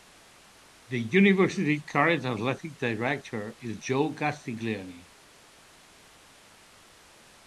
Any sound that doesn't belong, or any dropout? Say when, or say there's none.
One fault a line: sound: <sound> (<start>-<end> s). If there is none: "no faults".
no faults